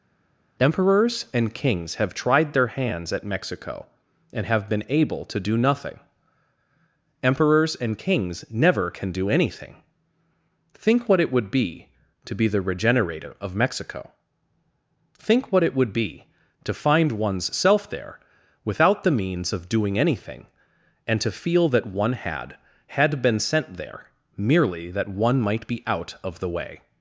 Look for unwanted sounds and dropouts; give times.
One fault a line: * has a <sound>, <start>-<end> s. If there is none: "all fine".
all fine